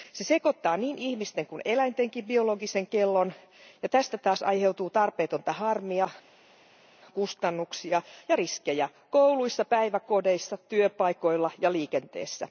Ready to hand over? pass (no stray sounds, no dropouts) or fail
pass